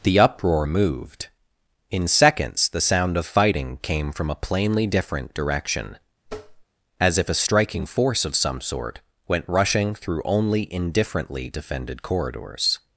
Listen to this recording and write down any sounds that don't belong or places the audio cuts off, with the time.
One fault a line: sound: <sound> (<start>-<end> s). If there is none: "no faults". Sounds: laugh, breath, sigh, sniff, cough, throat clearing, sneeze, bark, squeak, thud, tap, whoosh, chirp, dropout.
sound: tap (6.3-6.7 s)